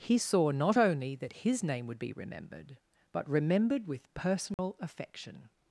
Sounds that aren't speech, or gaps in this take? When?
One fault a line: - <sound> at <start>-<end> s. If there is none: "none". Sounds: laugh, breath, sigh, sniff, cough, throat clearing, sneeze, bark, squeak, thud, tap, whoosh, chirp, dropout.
- dropout at 4.5-4.6 s